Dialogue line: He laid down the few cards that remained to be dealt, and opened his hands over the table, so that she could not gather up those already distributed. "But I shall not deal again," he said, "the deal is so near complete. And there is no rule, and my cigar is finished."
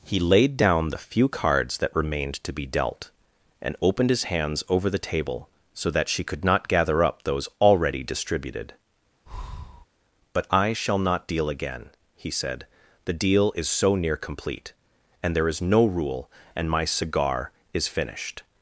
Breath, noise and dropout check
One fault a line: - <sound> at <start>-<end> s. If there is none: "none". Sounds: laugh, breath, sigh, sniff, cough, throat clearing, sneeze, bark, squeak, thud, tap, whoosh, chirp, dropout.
- breath at 9.3-9.9 s